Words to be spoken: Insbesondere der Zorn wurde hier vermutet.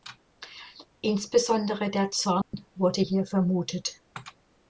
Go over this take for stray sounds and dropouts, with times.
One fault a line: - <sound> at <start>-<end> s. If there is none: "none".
- dropout at 2.4-2.5 s